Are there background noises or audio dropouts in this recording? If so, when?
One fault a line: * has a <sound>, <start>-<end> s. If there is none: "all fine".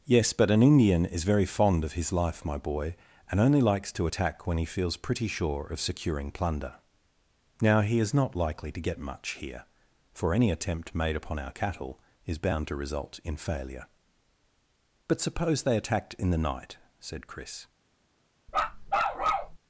* has a bark, 18.5-19.6 s